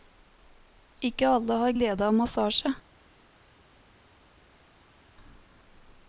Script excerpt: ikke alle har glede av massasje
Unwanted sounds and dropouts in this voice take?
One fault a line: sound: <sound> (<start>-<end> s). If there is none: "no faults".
no faults